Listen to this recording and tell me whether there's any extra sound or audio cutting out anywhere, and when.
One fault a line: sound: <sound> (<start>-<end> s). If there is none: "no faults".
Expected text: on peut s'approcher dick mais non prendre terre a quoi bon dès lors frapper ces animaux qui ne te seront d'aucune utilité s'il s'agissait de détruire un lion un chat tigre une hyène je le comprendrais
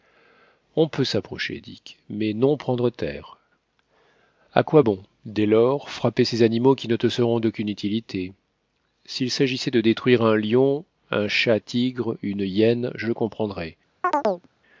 sound: chirp (14.0-14.5 s)